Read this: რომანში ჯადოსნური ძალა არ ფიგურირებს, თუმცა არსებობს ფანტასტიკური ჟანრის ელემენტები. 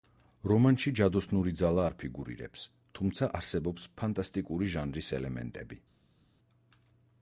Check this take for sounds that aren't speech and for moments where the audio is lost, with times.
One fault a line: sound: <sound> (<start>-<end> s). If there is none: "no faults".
no faults